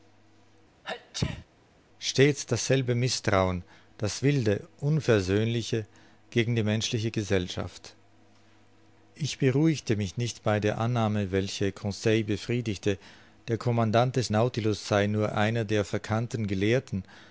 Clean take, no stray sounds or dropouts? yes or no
no